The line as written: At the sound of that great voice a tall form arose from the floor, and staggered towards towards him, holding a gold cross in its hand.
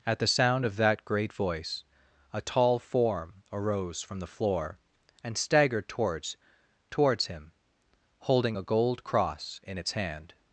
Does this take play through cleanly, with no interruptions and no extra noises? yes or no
yes